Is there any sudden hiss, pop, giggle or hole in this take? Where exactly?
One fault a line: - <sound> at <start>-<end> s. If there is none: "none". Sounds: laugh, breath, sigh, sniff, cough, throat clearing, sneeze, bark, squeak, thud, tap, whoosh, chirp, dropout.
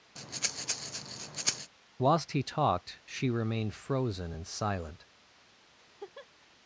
- breath at 0.2-1.7 s
- laugh at 5.8-6.5 s